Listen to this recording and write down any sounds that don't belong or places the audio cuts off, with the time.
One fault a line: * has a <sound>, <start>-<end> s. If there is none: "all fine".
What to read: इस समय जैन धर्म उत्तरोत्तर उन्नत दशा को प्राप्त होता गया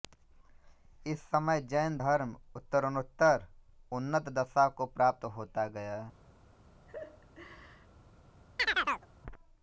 * has a laugh, 6.9-7.9 s
* has a chirp, 8.6-9.1 s